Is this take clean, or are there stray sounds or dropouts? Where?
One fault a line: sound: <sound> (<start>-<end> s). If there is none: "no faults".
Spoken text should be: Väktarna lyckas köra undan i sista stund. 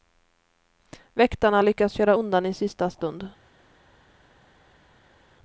no faults